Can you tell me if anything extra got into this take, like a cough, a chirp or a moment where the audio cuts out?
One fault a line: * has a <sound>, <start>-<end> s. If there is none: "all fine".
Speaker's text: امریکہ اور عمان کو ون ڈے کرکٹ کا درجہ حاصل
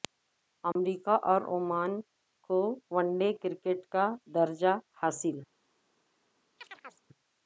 * has a dropout, 0.7-0.8 s
* has a chirp, 6.6-7.1 s